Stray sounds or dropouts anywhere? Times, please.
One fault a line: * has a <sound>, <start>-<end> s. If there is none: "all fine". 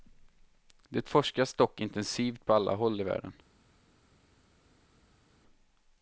all fine